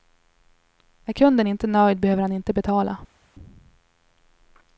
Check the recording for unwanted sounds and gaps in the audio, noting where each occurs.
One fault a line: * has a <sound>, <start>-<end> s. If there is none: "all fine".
all fine